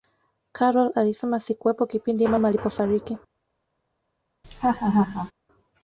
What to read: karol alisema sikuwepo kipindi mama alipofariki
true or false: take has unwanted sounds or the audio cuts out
true